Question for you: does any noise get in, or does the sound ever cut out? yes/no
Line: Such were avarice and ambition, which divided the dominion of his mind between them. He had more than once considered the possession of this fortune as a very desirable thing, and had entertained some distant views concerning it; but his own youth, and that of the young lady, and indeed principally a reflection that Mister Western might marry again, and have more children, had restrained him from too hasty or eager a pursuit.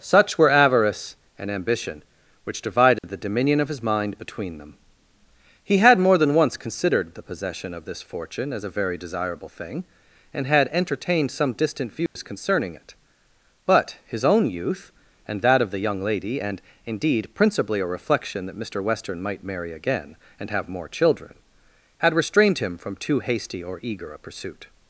yes